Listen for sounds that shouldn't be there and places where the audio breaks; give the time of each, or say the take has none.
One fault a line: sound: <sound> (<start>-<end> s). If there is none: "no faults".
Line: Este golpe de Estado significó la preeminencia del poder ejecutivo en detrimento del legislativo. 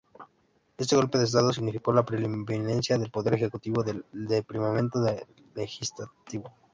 no faults